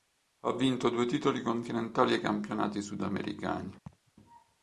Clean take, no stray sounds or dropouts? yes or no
no